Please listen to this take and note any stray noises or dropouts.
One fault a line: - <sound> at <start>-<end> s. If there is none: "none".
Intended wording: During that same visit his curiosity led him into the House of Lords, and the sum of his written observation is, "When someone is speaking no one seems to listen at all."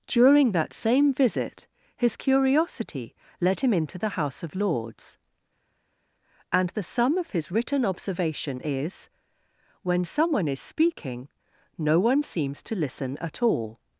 none